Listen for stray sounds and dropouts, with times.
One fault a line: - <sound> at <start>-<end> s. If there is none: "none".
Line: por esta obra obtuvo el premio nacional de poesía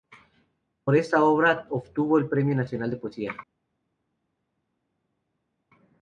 none